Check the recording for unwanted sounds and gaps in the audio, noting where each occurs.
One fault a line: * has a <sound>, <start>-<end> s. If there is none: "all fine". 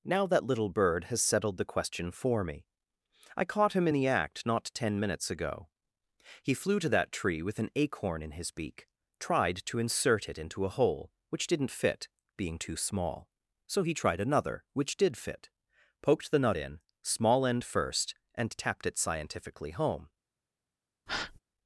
* has a breath, 21.1-21.4 s